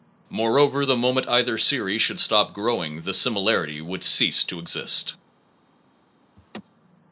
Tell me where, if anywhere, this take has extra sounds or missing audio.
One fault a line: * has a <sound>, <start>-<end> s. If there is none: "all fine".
* has a laugh, 6.4-6.6 s